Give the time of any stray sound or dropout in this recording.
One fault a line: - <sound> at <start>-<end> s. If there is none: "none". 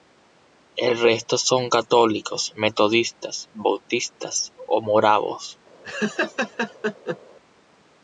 - laugh at 5.8-7.2 s